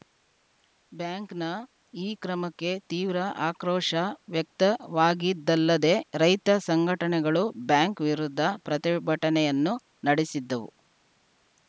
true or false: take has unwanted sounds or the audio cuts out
false